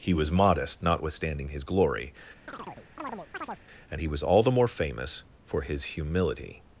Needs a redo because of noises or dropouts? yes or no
yes